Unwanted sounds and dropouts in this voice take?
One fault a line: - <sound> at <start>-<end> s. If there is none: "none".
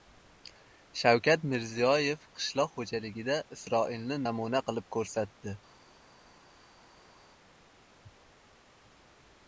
none